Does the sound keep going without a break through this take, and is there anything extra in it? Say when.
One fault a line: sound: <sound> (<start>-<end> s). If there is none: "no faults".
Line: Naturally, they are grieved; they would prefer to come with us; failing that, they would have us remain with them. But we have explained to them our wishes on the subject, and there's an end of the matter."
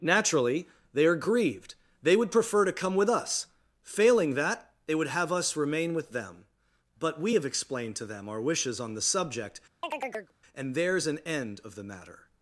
sound: chirp (9.8-10.3 s)